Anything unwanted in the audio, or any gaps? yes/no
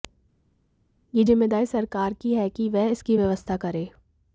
no